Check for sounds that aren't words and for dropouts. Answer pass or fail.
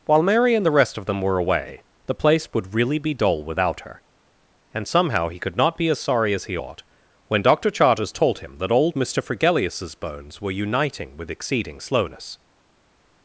pass